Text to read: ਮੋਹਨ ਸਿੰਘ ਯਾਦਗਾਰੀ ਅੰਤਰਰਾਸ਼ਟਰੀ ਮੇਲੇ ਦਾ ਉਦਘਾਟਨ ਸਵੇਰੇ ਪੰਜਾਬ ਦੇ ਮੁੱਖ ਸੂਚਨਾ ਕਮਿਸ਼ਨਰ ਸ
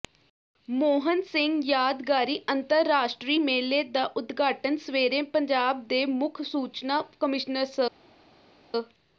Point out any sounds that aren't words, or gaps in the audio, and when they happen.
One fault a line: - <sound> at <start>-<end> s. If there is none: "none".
none